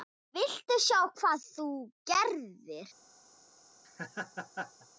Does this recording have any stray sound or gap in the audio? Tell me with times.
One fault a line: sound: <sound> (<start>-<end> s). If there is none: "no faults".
sound: laugh (3.8-4.9 s)